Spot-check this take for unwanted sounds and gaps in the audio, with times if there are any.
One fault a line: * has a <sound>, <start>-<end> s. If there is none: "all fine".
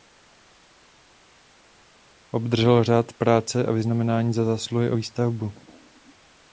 all fine